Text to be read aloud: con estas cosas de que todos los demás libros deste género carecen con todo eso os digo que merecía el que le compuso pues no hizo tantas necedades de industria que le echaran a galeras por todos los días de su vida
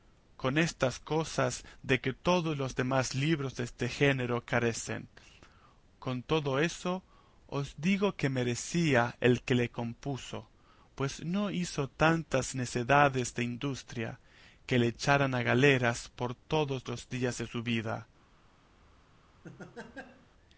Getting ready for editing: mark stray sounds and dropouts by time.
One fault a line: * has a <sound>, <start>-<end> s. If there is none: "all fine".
* has a laugh, 19.4-20.3 s